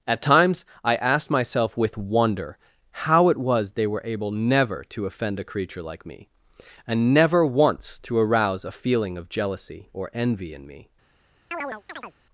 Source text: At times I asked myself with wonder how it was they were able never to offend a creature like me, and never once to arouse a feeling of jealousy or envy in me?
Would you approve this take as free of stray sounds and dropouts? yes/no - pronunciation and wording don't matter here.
no